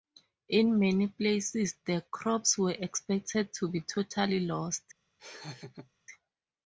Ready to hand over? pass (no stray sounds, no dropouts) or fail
fail